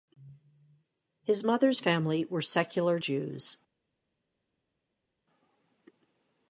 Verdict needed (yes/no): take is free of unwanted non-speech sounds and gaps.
yes